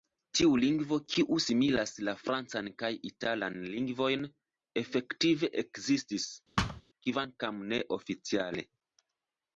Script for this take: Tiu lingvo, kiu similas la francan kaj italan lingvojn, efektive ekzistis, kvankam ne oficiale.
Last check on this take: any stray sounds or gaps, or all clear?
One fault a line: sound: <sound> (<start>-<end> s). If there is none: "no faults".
sound: thud (6.6-6.8 s)